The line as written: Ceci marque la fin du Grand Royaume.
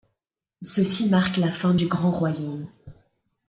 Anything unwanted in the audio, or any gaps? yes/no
no